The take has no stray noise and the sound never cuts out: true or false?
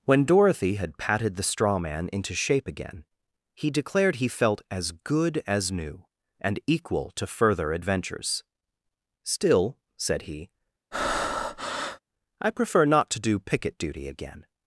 false